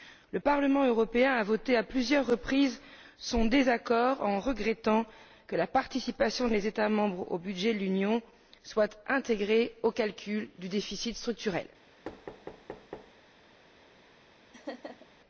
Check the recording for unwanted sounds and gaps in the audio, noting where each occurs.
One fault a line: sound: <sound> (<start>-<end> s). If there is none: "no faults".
sound: thud (12.0-13.1 s)
sound: laugh (14.5-15.1 s)